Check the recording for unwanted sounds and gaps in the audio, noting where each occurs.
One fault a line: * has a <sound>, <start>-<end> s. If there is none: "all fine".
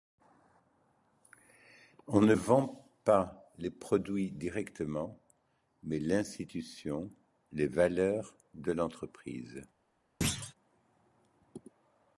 * has a thud, 10.2-10.5 s